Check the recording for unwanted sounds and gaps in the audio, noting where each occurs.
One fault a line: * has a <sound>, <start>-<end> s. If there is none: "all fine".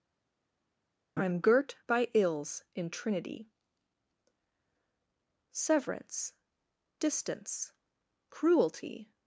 all fine